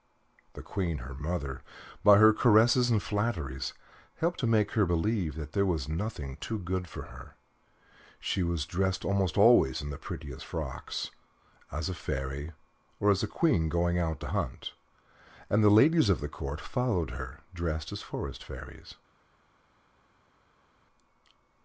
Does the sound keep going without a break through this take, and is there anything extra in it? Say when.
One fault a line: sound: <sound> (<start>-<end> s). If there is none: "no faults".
no faults